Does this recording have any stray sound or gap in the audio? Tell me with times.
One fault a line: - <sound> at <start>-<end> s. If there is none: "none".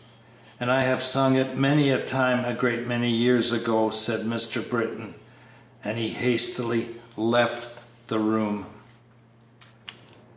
none